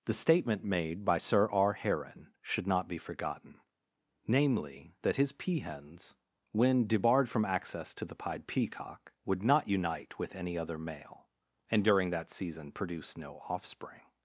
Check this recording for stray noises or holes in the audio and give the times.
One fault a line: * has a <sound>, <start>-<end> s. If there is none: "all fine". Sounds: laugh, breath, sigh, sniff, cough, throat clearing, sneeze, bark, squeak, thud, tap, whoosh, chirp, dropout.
all fine